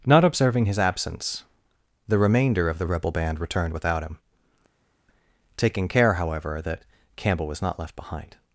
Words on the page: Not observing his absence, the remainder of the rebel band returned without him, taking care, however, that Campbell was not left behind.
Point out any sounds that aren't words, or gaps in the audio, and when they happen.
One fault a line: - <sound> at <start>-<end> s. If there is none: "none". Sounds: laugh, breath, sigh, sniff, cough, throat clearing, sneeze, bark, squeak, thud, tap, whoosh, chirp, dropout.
none